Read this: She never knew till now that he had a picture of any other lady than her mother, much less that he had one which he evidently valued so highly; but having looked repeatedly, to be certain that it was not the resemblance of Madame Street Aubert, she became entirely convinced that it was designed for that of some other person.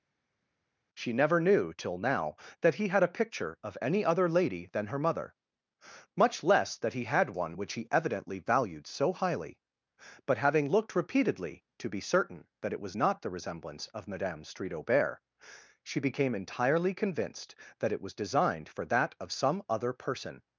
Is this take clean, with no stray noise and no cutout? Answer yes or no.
yes